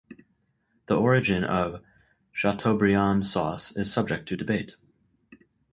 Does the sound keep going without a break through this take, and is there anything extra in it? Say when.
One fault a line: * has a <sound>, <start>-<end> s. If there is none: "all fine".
all fine